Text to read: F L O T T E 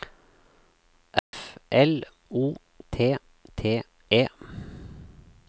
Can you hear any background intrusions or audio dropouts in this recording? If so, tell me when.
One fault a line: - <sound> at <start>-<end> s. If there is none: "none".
- dropout at 1.2-1.3 s